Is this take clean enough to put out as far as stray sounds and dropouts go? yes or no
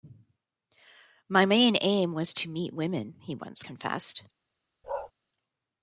no